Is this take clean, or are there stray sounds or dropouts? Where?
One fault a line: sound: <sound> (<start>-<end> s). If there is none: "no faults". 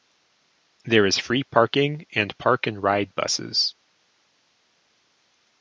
no faults